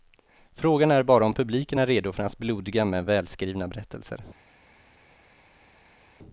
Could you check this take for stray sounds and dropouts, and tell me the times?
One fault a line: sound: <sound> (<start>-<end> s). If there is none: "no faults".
no faults